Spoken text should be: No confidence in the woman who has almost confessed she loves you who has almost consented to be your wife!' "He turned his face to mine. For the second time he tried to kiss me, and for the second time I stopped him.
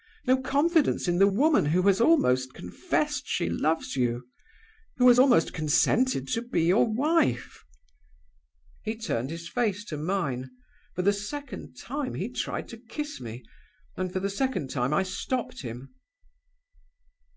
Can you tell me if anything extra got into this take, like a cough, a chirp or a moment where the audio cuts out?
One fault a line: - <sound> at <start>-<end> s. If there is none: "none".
none